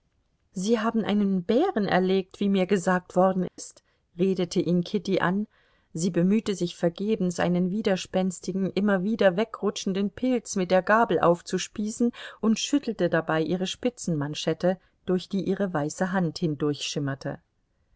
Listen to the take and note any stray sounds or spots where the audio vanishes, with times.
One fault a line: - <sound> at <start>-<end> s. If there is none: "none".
- dropout at 3.5-3.6 s